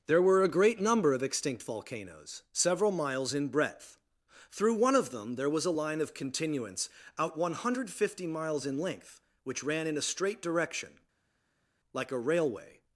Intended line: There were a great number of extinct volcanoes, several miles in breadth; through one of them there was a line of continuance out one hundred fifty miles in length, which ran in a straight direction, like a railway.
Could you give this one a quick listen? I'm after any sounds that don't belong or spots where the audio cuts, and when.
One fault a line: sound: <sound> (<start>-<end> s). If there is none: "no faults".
no faults